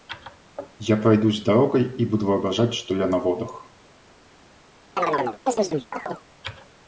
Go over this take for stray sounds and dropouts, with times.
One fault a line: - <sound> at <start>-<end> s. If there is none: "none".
- chirp at 5.0-6.3 s